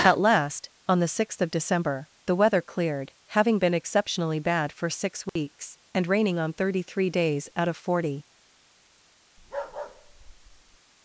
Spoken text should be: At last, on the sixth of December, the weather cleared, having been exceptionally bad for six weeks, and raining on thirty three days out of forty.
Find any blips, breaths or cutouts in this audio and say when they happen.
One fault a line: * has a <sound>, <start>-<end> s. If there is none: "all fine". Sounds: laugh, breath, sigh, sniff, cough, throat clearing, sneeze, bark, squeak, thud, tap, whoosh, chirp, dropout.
* has a dropout, 5.3-5.4 s
* has a bark, 9.4-10.8 s